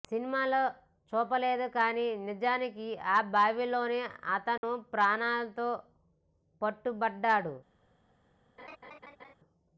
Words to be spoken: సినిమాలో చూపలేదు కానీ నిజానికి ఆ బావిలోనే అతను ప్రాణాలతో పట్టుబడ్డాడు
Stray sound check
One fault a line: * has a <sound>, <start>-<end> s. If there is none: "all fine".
* has a dropout, 4.6-4.6 s
* has a laugh, 8.6-9.3 s